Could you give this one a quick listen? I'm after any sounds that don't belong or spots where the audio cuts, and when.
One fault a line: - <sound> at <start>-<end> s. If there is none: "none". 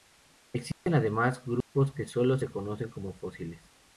- dropout at 0.7-0.9 s
- dropout at 1.6-1.7 s